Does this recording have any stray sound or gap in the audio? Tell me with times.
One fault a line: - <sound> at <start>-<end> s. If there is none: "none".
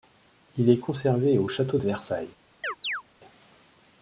- chirp at 2.6-3.0 s